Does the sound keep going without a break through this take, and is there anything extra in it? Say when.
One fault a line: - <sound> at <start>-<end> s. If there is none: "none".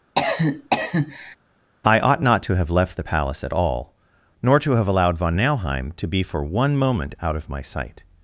- cough at 0.2-1.4 s